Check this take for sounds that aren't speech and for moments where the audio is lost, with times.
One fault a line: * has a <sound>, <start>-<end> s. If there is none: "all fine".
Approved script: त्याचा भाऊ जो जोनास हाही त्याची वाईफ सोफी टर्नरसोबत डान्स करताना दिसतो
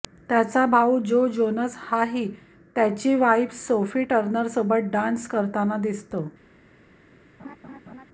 * has a laugh, 7.4-8.1 s